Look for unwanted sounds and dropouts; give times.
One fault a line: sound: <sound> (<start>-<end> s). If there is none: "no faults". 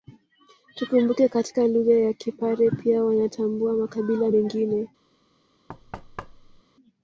sound: thud (5.7-6.6 s)